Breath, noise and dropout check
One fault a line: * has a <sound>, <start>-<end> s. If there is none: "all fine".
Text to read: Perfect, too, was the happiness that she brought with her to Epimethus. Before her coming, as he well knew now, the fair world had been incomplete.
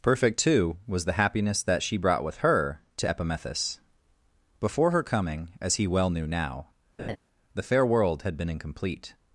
* has a laugh, 7.0-7.2 s